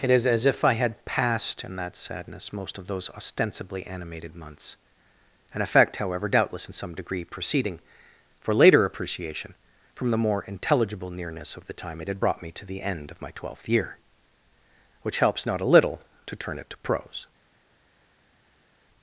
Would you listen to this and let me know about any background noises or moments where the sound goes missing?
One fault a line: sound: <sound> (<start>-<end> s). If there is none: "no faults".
no faults